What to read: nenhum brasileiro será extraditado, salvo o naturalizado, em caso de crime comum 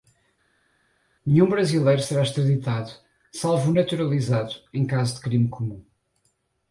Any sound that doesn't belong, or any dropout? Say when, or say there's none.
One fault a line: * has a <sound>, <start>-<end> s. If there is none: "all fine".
all fine